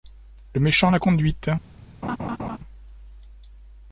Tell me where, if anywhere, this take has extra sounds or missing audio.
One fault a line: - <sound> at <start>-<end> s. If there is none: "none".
- laugh at 2.0-2.6 s